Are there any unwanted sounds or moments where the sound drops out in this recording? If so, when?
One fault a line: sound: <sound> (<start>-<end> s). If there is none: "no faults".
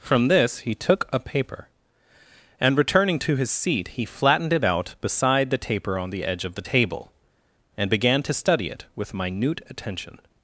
no faults